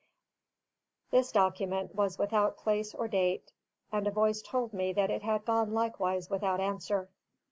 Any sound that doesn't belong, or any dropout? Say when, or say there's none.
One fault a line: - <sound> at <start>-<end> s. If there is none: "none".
none